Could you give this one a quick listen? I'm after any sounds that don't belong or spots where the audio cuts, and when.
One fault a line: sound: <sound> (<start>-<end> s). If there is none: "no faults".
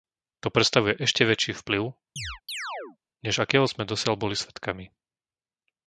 sound: chirp (2.2-3.0 s)